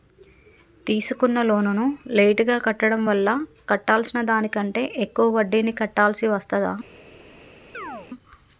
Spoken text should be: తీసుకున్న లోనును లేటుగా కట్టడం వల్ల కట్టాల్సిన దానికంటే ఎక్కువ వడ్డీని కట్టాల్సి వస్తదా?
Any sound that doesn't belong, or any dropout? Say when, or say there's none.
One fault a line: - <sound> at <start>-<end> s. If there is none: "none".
- chirp at 7.7-8.1 s